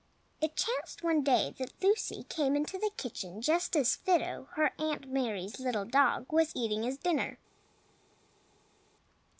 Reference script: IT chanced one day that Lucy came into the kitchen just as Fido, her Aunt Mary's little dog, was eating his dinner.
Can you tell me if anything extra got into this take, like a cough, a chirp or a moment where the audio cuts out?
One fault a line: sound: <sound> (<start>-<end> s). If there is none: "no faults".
no faults